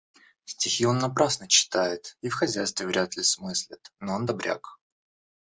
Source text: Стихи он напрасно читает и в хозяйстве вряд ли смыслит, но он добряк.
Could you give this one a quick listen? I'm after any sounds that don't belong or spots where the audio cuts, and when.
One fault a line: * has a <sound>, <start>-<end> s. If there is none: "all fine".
all fine